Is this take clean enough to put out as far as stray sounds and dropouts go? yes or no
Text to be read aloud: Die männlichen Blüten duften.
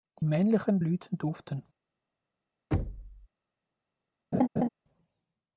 no